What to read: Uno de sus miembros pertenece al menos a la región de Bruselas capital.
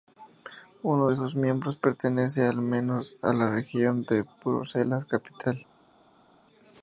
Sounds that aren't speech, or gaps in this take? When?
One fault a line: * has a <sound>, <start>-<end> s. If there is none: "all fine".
all fine